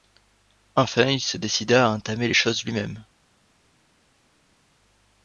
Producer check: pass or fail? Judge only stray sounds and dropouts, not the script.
pass